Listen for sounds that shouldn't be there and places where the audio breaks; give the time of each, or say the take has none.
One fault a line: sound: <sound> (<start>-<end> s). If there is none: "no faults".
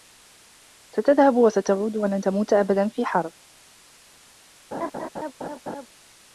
sound: laugh (4.7-5.9 s)